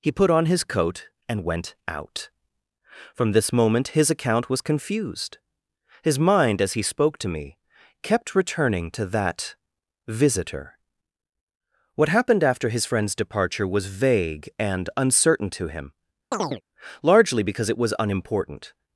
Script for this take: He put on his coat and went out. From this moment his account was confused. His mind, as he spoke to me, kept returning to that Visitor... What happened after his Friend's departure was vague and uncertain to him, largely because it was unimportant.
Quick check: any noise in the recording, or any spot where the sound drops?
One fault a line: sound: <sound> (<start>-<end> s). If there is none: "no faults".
sound: chirp (16.3-16.6 s)